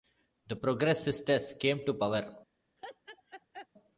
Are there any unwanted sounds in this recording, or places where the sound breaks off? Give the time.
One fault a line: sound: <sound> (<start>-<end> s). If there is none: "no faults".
sound: laugh (2.8-3.7 s)